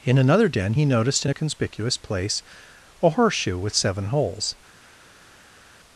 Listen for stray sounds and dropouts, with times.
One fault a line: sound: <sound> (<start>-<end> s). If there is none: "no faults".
no faults